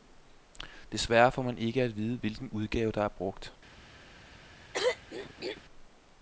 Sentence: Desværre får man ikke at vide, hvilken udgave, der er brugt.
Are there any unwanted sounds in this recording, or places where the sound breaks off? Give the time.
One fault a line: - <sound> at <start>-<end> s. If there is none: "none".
- throat clearing at 4.7-5.6 s